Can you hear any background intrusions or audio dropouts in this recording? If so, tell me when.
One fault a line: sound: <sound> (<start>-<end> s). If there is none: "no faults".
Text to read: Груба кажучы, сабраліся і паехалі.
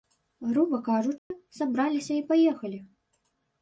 sound: dropout (1.2-1.3 s)